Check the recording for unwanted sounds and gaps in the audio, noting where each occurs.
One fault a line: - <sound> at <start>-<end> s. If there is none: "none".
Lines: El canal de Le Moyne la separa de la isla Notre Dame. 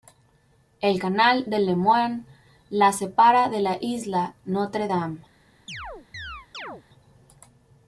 - chirp at 5.7-6.8 s